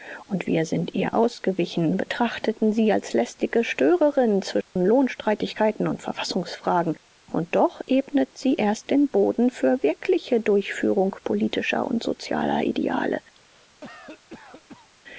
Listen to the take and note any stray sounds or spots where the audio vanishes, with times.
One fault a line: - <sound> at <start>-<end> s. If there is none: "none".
- dropout at 4.6-4.8 s
- cough at 13.4-14.9 s